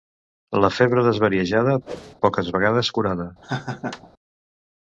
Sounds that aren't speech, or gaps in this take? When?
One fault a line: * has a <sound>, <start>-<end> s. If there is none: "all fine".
* has a whoosh, 1.9-2.1 s
* has a laugh, 3.4-4.1 s